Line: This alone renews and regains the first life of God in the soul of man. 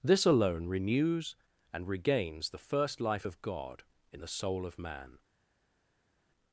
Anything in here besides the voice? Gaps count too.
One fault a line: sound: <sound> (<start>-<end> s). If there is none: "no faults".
no faults